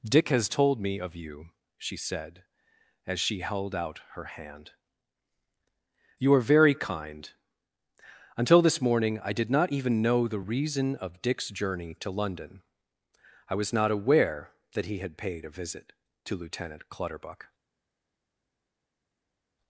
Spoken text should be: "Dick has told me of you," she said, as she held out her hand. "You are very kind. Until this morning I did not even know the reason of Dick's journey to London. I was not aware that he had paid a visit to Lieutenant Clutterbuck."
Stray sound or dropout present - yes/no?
no